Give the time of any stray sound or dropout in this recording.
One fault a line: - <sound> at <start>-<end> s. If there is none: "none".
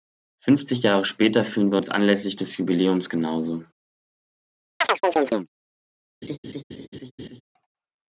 - chirp at 4.8-5.5 s
- laugh at 6.2-7.4 s